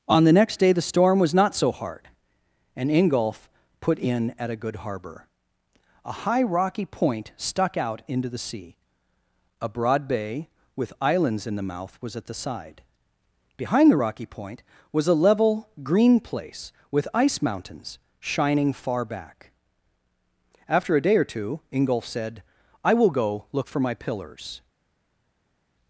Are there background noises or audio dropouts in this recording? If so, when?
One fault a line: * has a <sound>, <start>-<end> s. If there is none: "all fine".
all fine